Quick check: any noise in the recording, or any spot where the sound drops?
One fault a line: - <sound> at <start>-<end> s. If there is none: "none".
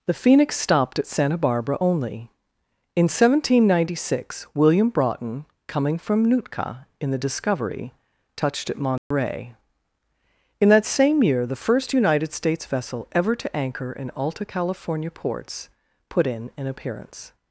- dropout at 9.0-9.1 s